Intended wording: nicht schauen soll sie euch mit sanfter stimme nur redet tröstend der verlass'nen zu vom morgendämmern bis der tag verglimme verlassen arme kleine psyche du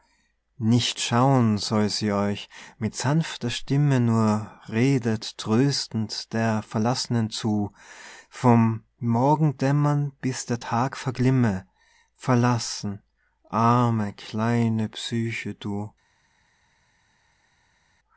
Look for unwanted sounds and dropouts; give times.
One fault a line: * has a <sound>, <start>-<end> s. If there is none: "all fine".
all fine